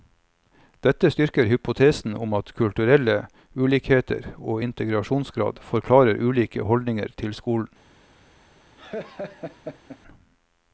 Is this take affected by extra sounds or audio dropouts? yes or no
yes